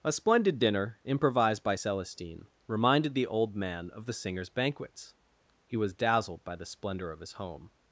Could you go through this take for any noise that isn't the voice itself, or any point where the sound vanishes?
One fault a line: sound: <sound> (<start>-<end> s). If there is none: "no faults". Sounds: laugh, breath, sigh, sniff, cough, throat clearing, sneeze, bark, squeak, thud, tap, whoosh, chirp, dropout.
no faults